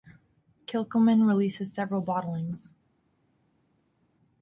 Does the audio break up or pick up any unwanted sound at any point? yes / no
no